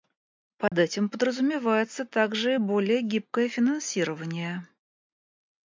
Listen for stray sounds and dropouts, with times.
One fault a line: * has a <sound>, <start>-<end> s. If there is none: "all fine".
* has a dropout, 0.7-0.7 s